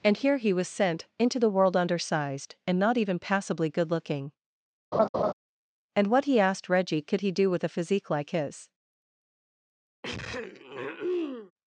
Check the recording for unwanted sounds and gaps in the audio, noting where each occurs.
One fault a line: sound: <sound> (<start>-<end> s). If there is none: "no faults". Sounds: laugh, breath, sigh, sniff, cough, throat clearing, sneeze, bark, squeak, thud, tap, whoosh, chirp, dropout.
sound: laugh (4.9-5.3 s)
sound: throat clearing (10.0-11.5 s)